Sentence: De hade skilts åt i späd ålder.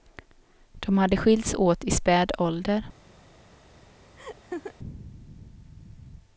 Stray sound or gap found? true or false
true